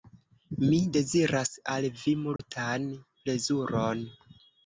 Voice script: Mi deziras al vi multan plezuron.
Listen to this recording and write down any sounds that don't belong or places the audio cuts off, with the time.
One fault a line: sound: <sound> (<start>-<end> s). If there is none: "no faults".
sound: dropout (2.4-2.4 s)